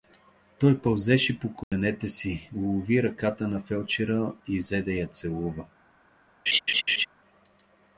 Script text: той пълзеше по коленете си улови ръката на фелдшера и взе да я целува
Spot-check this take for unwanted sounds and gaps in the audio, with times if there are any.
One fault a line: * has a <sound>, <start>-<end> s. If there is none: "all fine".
* has a dropout, 1.6-1.7 s
* has a laugh, 6.5-7.1 s